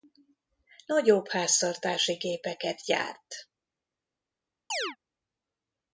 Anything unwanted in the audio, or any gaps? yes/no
yes